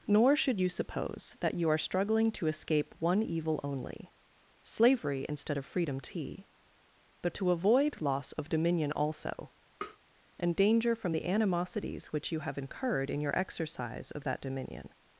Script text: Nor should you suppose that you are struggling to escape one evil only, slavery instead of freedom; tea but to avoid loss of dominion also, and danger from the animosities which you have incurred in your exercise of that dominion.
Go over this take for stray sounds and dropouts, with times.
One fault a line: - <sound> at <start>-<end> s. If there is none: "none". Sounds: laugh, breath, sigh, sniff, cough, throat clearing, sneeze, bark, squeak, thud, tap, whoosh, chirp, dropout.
- tap at 9.8-10.0 s